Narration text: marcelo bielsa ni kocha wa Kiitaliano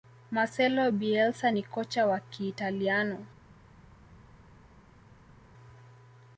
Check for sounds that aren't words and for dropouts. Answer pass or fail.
pass